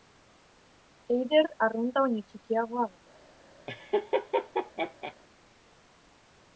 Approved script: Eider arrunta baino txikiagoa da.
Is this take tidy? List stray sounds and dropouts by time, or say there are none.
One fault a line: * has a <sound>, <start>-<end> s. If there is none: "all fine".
* has a laugh, 3.7-5.1 s